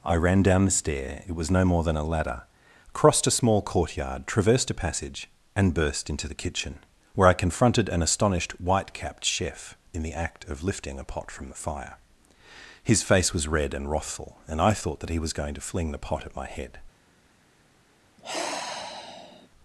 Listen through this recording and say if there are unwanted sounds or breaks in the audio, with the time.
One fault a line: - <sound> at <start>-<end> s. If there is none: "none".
- sigh at 18.2-19.5 s